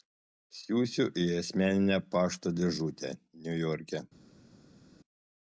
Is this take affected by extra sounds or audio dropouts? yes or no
no